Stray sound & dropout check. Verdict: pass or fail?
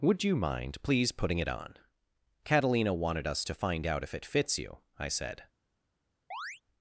fail